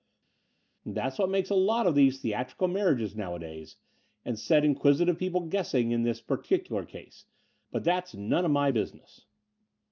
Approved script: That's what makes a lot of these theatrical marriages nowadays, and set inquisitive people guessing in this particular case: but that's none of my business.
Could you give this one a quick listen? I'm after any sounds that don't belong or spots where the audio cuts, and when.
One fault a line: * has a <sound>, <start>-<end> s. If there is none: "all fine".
all fine